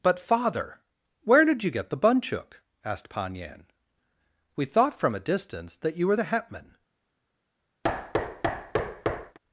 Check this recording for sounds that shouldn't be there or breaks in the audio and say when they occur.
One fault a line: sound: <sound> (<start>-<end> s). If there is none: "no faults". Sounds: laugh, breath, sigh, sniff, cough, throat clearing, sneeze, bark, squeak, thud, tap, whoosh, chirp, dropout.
sound: thud (7.8-9.4 s)